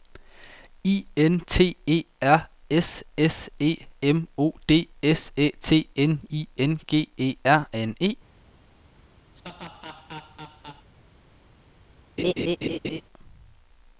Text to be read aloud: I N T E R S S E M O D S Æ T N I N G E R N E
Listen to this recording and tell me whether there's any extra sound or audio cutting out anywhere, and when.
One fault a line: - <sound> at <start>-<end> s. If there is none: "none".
- laugh at 9.4-10.9 s
- laugh at 12.2-13.0 s